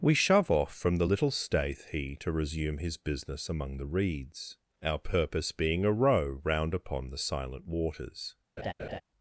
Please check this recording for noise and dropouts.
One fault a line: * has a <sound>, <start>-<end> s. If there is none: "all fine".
* has a laugh, 8.6-9.0 s